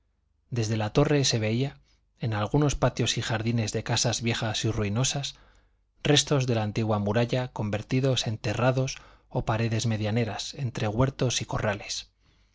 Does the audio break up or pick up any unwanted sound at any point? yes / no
no